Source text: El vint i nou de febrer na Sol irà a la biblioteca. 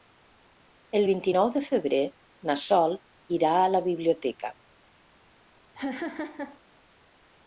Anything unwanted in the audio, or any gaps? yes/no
yes